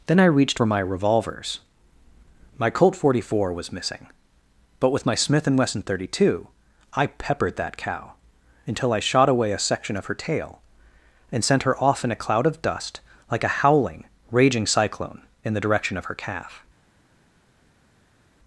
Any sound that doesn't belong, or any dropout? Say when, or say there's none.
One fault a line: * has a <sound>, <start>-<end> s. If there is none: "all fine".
all fine